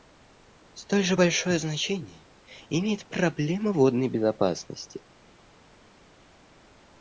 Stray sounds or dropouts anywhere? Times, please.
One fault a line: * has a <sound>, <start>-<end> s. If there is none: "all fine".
all fine